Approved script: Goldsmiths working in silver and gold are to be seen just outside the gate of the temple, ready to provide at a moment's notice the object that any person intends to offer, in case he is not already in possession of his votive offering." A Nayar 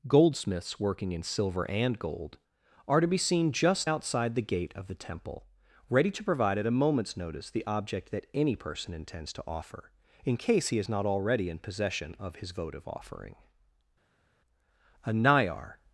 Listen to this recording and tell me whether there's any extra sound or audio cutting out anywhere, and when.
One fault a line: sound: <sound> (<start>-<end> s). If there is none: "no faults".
no faults